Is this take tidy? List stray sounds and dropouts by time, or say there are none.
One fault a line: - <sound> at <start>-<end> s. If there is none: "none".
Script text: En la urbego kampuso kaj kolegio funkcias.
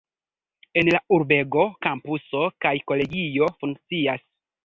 none